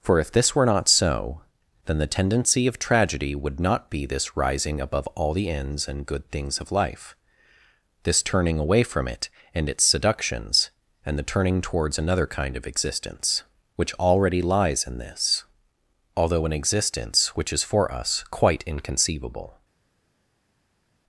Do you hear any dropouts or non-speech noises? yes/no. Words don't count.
no